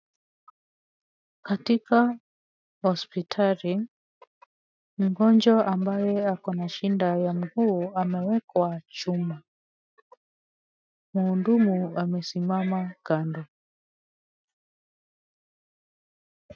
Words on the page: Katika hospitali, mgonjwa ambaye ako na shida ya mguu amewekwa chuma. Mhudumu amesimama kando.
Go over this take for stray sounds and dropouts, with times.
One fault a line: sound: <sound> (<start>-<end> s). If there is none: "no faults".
no faults